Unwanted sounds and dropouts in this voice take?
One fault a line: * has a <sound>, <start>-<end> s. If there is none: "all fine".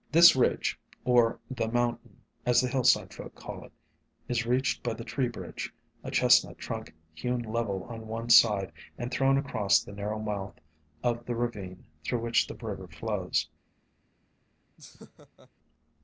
* has a laugh, 14.8-15.5 s